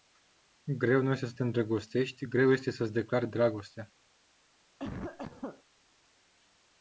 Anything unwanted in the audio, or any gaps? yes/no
yes